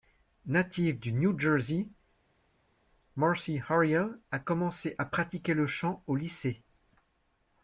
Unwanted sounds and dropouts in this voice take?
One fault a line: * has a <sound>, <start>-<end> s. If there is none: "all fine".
all fine